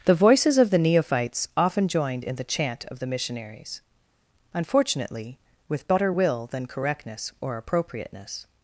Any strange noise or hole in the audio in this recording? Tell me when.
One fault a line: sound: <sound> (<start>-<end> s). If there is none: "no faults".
no faults